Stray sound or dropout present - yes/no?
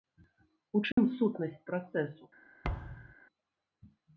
yes